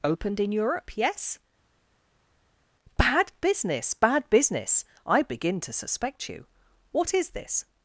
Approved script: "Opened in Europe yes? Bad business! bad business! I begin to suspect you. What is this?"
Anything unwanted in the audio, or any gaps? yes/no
no